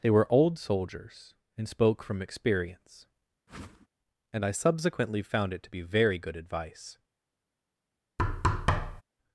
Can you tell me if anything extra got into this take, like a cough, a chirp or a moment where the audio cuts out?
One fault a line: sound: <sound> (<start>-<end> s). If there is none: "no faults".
sound: whoosh (3.5-3.9 s)
sound: thud (8.2-9.0 s)